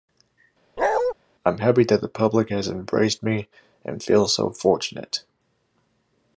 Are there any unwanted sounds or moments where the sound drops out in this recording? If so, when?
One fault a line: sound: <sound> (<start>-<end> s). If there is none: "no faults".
sound: bark (0.8-1.1 s)